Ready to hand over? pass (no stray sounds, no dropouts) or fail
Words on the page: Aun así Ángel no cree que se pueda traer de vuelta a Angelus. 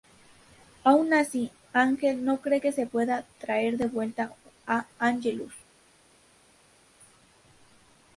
pass